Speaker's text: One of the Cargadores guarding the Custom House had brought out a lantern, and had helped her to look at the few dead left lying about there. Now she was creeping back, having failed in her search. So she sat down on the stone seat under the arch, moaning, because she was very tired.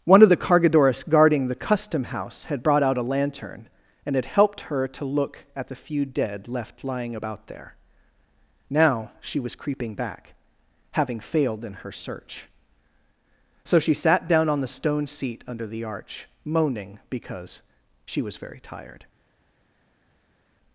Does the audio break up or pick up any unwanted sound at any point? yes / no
no